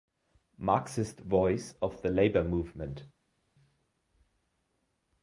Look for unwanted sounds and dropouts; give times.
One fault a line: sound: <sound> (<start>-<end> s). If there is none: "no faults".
no faults